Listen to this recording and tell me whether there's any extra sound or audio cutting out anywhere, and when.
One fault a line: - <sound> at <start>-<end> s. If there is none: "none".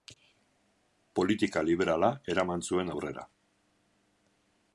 none